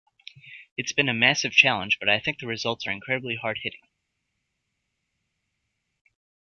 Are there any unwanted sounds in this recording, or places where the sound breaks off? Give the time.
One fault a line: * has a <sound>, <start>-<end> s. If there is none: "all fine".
all fine